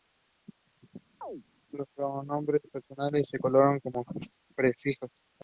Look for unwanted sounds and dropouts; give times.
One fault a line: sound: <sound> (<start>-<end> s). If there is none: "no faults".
sound: chirp (1.2-1.4 s)